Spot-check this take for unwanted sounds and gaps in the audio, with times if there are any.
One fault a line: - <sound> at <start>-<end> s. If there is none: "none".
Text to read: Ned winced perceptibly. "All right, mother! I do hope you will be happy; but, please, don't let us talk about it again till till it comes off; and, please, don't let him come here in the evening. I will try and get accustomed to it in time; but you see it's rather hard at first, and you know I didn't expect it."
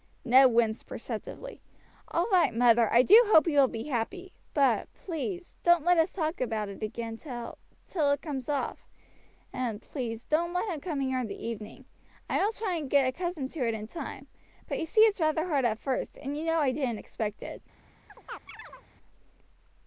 - chirp at 18.1-18.9 s